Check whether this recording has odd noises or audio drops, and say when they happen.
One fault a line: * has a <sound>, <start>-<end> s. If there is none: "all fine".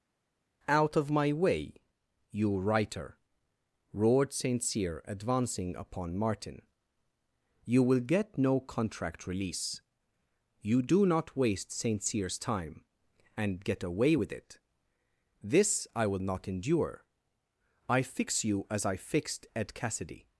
all fine